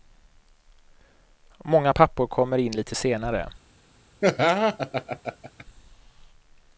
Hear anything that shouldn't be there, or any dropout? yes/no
yes